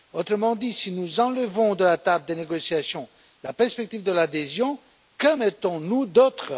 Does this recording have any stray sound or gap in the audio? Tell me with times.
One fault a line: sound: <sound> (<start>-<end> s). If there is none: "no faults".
no faults